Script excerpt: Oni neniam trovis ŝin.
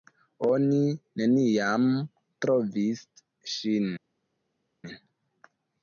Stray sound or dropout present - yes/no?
no